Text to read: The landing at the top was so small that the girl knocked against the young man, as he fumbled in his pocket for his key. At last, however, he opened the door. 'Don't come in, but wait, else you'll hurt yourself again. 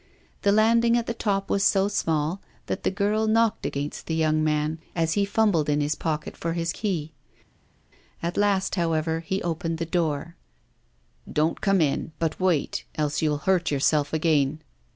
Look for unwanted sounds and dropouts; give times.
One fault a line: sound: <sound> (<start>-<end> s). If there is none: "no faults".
no faults